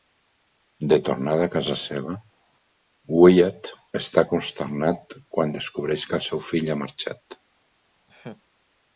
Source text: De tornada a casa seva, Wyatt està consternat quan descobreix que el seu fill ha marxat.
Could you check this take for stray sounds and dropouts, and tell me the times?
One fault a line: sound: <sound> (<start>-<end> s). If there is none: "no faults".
sound: laugh (8.1-8.4 s)